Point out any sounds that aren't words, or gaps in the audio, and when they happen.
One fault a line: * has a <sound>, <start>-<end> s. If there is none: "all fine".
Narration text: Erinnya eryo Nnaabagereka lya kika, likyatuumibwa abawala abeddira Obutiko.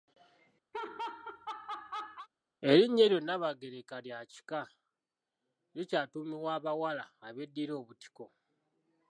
* has a laugh, 0.7-2.3 s